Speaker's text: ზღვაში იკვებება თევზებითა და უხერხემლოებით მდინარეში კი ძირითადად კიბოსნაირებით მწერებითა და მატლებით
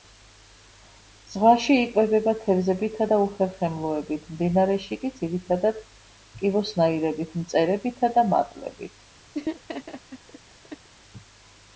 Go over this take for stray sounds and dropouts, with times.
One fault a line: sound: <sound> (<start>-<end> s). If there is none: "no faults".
sound: laugh (9.3-10.9 s)